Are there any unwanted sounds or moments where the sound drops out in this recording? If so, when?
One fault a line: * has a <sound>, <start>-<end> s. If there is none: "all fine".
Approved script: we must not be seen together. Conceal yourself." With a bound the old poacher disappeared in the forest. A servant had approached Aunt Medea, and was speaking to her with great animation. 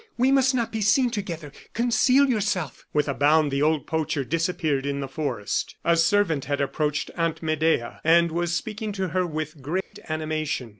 * has a dropout, 9.8-9.9 s